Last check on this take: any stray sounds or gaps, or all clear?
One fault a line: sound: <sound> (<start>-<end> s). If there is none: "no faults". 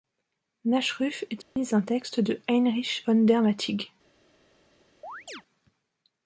sound: dropout (1.4-1.6 s)
sound: chirp (5.0-5.4 s)